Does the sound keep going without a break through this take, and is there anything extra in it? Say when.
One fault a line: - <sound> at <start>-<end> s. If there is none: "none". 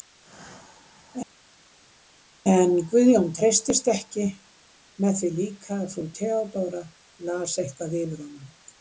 none